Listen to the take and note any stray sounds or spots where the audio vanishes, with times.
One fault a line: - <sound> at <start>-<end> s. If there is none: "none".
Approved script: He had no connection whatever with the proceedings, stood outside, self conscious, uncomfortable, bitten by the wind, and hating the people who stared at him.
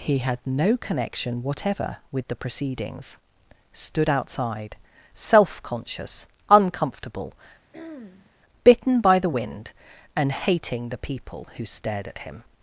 - throat clearing at 7.7-8.3 s